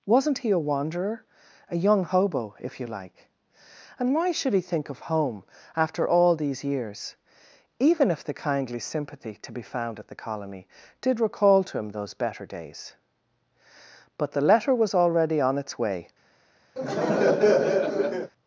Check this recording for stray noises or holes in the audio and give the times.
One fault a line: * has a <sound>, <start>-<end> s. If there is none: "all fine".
* has a laugh, 16.8-18.3 s